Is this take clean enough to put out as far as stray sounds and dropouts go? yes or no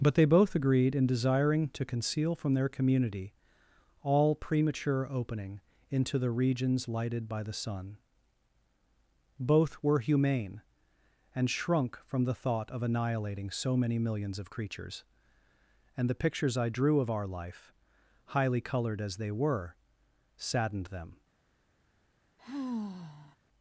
no